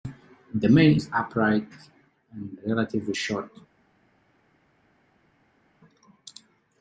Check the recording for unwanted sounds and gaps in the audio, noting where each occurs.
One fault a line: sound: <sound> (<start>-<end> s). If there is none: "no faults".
no faults